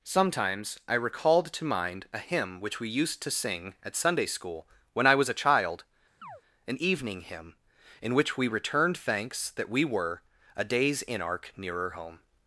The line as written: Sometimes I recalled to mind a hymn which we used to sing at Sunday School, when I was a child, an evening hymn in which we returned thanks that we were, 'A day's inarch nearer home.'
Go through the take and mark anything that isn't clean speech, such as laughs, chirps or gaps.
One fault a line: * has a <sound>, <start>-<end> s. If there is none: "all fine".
* has a chirp, 6.2-6.4 s